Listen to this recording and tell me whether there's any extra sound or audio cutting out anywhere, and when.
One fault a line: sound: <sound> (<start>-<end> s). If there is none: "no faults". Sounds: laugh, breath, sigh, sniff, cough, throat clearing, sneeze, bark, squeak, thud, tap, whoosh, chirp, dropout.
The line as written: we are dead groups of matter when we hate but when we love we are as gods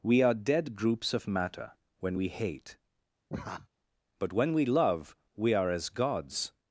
sound: laugh (3.3-3.7 s)